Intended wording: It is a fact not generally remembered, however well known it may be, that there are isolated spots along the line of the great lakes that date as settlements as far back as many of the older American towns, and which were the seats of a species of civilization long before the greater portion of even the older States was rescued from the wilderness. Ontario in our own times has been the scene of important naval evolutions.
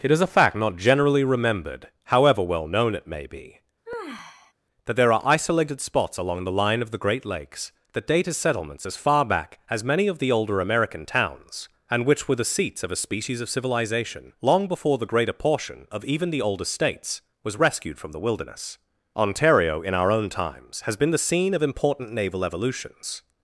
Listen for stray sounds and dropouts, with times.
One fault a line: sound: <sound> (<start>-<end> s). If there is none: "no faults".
sound: sigh (3.9-4.5 s)